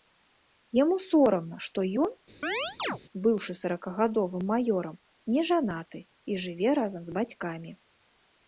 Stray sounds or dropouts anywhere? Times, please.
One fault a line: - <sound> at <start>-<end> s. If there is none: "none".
- chirp at 2.4-3.0 s